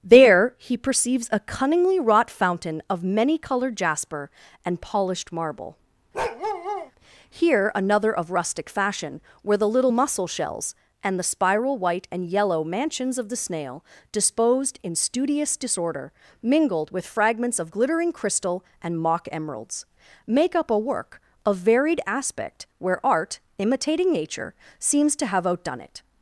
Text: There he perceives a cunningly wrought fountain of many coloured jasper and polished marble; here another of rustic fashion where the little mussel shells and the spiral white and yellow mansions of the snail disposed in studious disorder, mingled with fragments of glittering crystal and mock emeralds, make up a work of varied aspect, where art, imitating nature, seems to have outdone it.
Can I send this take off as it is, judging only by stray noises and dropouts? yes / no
no